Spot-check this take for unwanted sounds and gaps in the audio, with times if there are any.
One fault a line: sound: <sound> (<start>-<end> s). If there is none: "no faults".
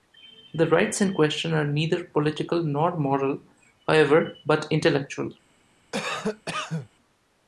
sound: cough (5.9-6.9 s)